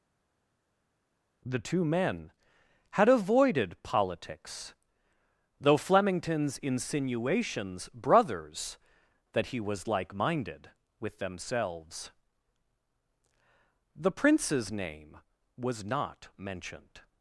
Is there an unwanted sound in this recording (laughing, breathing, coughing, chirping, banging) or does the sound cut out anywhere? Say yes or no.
no